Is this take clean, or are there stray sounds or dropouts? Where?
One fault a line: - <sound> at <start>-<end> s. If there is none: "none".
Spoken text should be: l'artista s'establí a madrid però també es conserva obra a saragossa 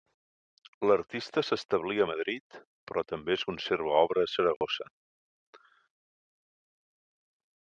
- dropout at 4.6-4.6 s